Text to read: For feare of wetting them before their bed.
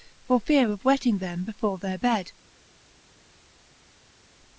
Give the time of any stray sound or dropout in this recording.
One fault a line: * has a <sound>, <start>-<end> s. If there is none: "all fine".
all fine